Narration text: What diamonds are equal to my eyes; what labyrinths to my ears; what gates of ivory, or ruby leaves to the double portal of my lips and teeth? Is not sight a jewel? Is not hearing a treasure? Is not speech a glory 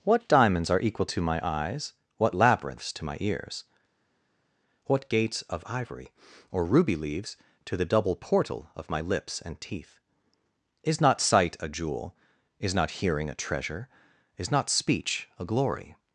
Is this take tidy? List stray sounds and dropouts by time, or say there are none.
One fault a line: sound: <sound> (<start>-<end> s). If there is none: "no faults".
no faults